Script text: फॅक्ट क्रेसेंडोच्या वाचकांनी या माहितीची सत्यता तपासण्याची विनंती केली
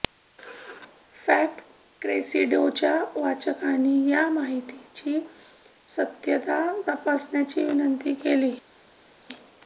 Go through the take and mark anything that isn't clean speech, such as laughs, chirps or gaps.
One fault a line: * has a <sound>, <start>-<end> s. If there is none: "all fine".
all fine